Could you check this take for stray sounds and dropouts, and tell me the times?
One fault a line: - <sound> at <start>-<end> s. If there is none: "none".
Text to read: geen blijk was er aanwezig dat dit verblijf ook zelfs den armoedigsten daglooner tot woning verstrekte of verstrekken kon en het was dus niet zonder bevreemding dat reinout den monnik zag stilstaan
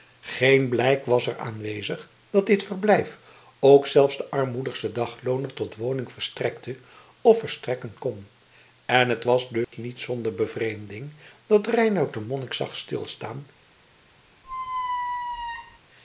- dropout at 9.6-9.7 s
- squeak at 14.4-15.8 s